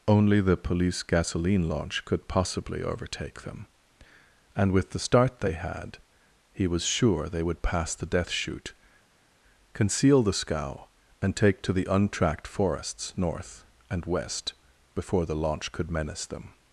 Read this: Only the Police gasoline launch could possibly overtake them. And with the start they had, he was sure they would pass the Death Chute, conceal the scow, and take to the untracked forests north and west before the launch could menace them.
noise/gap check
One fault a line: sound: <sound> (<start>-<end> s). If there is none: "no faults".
no faults